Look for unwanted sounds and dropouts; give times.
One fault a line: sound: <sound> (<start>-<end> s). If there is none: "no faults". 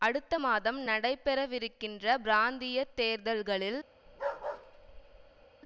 sound: bark (4.1-5.5 s)